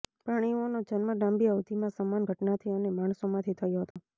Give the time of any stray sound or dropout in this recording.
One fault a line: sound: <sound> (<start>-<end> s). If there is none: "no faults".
sound: dropout (3.9-4.0 s)